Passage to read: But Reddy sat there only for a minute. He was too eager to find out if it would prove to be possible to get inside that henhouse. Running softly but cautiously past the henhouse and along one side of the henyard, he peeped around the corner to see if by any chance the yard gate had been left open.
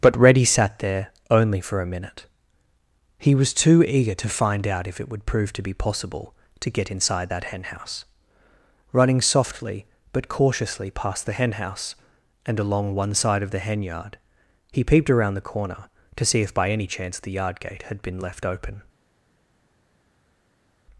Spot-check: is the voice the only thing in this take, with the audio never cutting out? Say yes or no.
yes